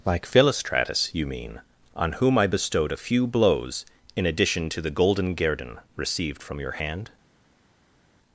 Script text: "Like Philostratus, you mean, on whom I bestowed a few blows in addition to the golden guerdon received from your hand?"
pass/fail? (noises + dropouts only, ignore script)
pass